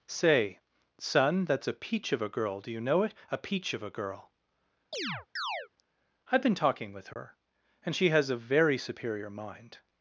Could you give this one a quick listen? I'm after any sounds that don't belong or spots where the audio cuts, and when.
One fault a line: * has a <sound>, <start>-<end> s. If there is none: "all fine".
* has a chirp, 4.9-5.7 s
* has a dropout, 7.1-7.2 s